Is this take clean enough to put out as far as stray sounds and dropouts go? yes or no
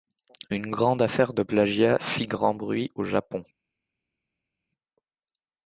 yes